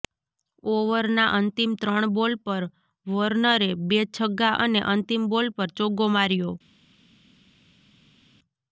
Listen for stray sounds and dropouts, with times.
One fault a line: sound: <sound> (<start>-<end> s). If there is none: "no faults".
no faults